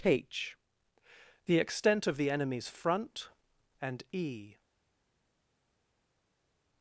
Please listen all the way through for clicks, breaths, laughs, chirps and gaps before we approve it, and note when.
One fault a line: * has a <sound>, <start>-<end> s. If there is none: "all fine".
all fine